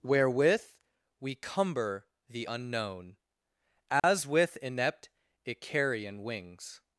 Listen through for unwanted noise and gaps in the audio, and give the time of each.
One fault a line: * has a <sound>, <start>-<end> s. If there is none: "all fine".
* has a dropout, 4.0-4.0 s